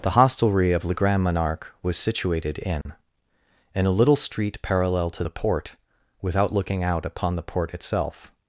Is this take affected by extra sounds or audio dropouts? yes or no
yes